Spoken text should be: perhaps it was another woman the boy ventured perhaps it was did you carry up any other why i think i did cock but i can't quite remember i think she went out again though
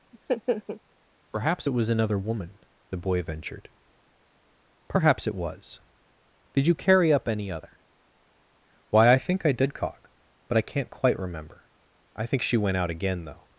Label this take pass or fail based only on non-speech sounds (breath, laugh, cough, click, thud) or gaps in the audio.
fail